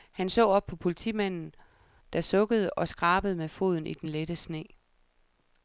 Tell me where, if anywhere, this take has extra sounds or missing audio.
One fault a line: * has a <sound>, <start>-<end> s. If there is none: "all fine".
all fine